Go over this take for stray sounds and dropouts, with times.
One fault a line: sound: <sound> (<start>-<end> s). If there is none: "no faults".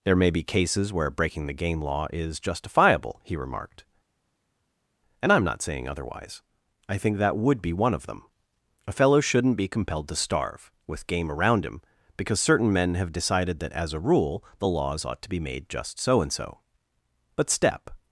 no faults